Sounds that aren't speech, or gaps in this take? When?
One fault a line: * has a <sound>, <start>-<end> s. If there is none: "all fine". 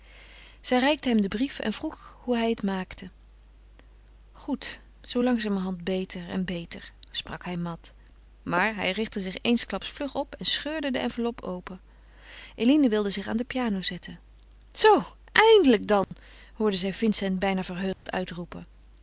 * has a dropout, 16.0-16.1 s
* has a dropout, 17.9-18.1 s